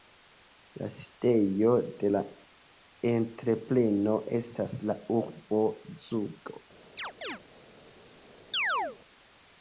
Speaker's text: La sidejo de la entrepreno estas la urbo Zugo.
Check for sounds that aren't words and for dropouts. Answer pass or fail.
fail